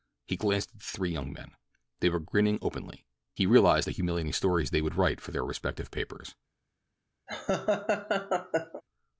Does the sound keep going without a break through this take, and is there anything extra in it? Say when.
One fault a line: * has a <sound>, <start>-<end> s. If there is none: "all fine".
* has a laugh, 7.3-8.8 s